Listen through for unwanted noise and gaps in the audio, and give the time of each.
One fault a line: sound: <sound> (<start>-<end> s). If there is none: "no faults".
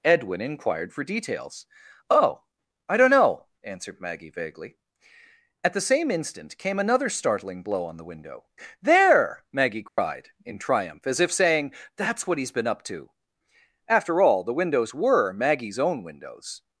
sound: dropout (9.9-10.0 s)